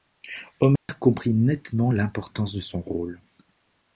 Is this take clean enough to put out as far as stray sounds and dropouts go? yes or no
no